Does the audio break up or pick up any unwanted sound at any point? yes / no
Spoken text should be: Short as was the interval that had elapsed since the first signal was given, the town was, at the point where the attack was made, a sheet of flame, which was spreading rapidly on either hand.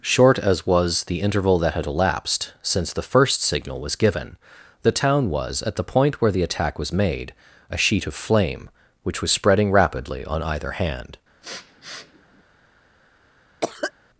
yes